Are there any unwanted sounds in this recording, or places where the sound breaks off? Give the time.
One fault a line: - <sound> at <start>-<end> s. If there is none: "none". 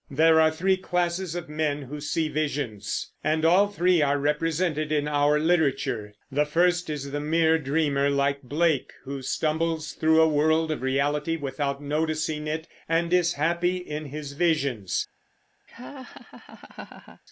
- laugh at 15.7-17.2 s